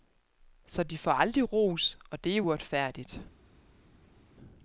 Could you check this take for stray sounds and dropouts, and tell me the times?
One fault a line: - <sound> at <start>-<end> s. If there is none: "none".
none